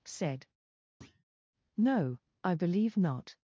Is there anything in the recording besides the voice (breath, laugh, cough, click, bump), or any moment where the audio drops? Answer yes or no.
yes